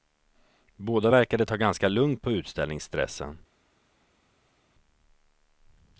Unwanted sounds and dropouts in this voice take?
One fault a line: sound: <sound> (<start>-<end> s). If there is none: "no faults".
no faults